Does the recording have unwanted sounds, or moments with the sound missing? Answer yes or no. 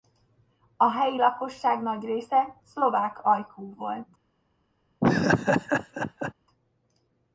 yes